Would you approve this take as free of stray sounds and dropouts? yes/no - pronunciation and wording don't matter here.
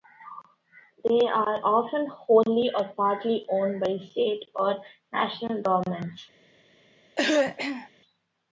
no